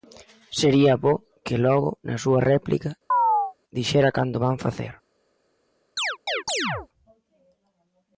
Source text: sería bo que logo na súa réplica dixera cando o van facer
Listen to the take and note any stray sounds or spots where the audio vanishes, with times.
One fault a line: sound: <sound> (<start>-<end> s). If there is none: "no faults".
sound: chirp (3.1-3.5 s)
sound: chirp (6.0-6.9 s)